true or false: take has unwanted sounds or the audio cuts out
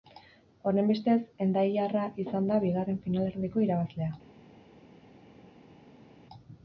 false